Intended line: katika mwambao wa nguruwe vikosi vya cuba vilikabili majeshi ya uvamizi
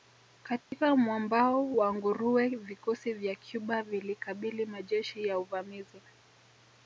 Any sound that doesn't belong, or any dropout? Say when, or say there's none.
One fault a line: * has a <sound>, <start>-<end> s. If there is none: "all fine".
* has a dropout, 0.6-0.7 s